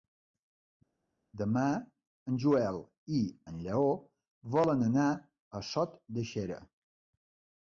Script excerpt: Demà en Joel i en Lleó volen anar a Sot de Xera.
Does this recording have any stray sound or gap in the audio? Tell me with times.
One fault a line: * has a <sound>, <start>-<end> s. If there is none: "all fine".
all fine